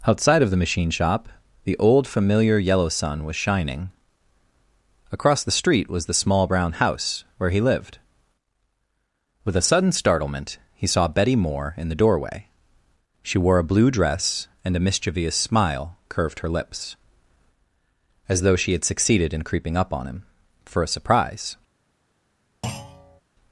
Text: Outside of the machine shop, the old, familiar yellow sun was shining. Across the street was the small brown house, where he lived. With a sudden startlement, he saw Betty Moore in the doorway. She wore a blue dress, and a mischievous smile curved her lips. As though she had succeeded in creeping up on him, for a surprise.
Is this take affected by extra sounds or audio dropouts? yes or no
yes